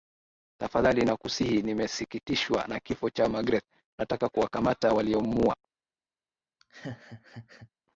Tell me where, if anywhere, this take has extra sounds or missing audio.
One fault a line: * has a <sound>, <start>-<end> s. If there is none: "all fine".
* has a laugh, 6.6-7.7 s